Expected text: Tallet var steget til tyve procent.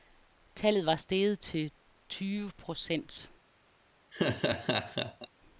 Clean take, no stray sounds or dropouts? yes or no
no